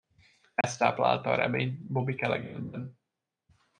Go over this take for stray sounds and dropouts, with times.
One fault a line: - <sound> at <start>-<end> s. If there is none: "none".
- dropout at 0.6-0.6 s